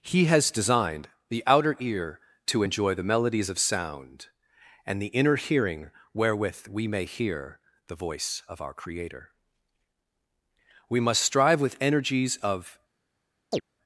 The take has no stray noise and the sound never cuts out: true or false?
false